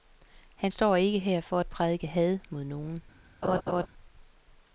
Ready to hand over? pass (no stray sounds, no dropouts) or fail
fail